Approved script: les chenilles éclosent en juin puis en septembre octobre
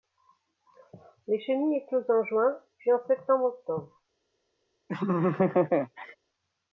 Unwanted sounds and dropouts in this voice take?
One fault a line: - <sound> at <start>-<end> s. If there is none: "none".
- laugh at 4.9-6.2 s